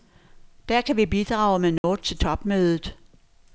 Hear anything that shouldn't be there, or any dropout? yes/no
yes